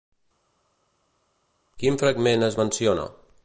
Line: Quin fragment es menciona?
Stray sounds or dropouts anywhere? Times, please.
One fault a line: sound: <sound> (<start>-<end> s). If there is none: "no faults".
no faults